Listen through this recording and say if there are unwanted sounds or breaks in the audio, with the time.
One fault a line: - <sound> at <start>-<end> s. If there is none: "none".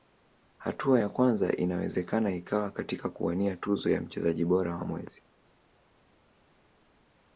none